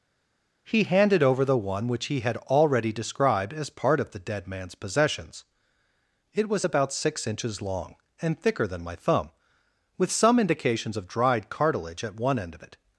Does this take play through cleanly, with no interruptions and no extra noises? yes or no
yes